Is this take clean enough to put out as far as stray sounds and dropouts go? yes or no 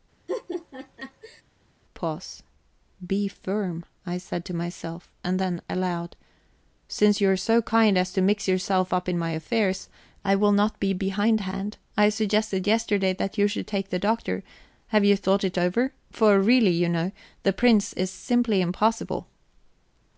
no